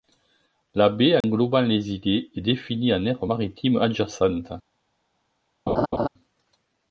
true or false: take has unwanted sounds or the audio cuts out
true